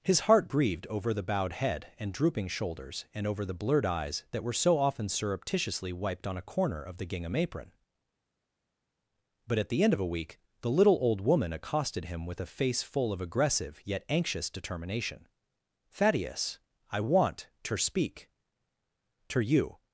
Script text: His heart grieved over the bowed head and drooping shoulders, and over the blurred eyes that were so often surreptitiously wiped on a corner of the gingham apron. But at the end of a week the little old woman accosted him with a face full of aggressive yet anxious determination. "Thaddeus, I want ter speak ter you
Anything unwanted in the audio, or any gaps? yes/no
no